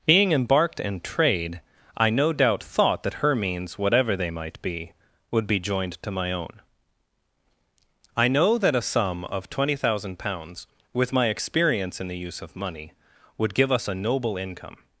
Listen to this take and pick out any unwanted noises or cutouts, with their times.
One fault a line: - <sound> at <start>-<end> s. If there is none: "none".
none